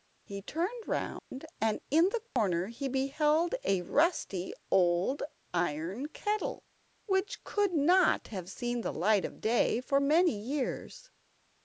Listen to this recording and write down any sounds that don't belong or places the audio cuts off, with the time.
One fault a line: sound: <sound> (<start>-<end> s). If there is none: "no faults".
sound: dropout (1.2-1.3 s)
sound: dropout (2.3-2.4 s)